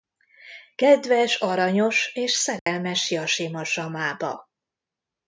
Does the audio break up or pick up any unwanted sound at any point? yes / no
yes